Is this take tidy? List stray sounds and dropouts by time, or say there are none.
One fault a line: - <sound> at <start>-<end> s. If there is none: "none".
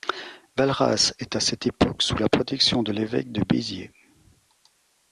none